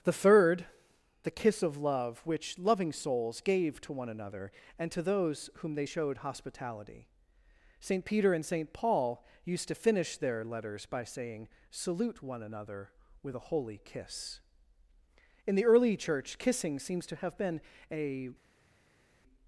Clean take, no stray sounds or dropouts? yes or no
yes